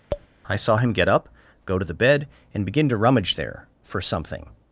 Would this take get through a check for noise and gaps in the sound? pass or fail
fail